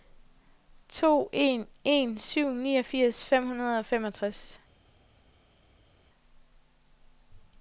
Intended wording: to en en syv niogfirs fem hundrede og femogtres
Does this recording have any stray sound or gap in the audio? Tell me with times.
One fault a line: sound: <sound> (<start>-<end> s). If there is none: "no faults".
no faults